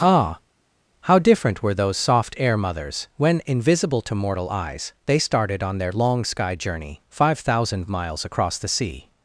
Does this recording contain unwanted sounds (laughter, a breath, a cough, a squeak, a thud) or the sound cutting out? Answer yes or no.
no